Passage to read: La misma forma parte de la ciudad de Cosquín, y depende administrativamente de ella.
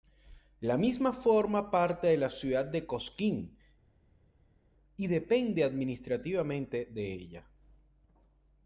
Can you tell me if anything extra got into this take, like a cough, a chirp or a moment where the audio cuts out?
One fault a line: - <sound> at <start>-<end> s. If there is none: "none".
none